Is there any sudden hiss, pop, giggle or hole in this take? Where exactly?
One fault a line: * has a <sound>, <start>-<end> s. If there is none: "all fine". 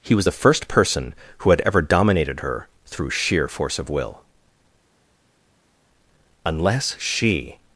all fine